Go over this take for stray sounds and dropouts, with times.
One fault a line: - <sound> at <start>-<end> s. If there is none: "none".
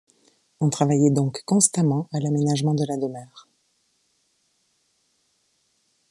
none